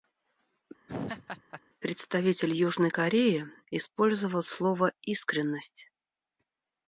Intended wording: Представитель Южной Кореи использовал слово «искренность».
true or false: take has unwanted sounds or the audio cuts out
true